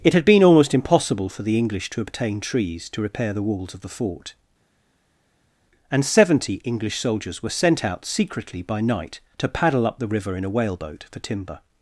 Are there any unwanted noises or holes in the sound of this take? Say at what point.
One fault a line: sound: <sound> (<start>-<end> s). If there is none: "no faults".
no faults